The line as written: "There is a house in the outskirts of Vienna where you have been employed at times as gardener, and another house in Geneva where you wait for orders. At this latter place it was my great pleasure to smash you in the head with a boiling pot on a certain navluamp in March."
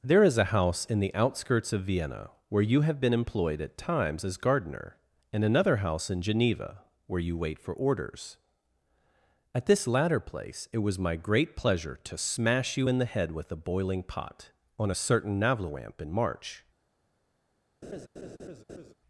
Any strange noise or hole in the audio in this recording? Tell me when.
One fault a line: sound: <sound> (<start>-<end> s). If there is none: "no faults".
sound: laugh (17.8-18.9 s)